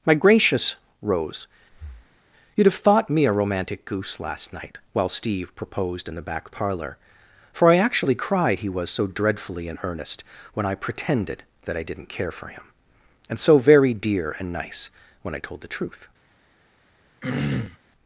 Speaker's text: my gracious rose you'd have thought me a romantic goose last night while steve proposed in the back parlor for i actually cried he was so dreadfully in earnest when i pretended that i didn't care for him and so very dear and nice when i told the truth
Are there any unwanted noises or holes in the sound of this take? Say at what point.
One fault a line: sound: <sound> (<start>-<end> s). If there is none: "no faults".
sound: breath (1.7-2.2 s)
sound: throat clearing (17.2-17.8 s)